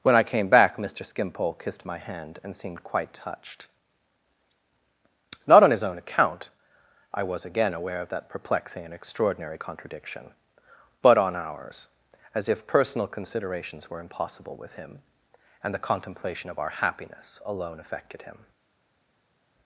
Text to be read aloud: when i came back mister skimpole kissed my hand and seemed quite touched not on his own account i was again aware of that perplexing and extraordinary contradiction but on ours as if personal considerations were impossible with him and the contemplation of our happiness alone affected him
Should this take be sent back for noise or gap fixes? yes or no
no